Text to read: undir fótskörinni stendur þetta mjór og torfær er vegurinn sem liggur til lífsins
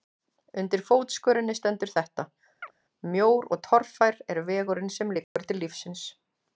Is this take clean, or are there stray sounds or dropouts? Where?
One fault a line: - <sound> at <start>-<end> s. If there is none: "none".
- chirp at 2.6-2.7 s
- dropout at 5.2-5.4 s